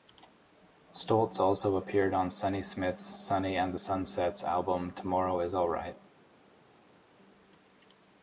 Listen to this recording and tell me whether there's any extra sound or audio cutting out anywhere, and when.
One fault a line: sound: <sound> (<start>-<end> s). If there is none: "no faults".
no faults